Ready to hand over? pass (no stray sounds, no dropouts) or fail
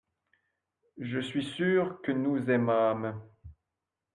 pass